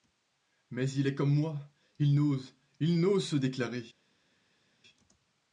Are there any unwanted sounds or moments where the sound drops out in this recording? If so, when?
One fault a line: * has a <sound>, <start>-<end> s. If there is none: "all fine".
all fine